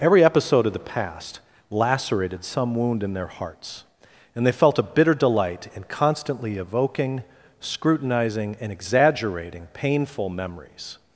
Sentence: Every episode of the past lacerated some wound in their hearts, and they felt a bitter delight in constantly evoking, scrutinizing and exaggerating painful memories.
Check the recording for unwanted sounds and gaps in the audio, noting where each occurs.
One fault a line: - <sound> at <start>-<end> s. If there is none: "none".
none